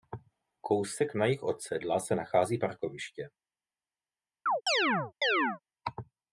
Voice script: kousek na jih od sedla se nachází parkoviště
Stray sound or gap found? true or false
true